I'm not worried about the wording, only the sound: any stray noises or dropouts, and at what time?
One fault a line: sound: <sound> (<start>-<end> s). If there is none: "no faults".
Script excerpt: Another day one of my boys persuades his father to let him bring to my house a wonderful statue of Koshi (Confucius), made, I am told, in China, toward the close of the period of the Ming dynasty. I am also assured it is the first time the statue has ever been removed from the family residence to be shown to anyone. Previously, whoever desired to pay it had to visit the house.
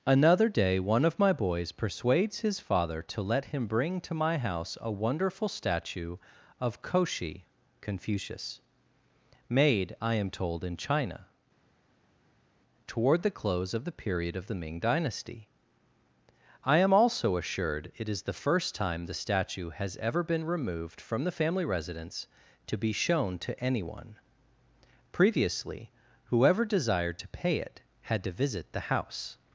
no faults